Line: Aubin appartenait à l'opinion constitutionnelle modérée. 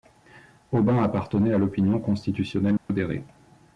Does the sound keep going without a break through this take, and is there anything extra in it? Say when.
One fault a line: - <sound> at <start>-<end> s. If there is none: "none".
- dropout at 2.8-2.9 s